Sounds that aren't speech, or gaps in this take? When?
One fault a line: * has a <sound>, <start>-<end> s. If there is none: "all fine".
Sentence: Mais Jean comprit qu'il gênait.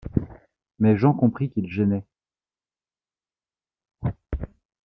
all fine